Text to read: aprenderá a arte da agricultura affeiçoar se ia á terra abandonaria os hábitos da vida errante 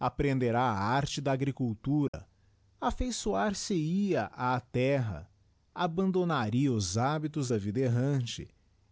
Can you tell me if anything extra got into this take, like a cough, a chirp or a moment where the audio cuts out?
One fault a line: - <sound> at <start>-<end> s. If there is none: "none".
- dropout at 2.1-2.1 s